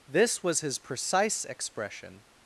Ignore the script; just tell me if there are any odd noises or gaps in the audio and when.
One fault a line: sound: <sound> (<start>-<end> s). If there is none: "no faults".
no faults